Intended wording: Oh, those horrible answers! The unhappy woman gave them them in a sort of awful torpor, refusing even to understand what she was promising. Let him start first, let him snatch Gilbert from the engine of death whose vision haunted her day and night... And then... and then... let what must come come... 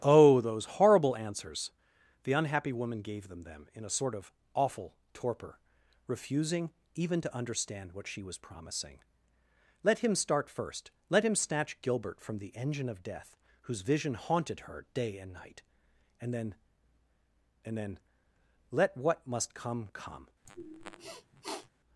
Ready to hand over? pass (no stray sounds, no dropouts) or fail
fail